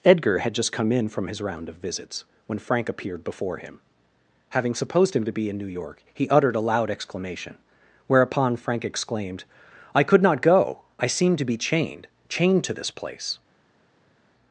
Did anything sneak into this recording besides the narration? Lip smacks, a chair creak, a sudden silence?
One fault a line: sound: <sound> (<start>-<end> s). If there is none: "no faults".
no faults